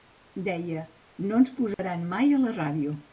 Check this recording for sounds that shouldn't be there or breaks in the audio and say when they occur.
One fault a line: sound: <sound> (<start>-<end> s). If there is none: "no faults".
sound: dropout (1.7-1.8 s)